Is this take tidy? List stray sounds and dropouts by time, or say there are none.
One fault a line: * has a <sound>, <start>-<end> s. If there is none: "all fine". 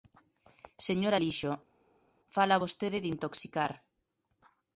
all fine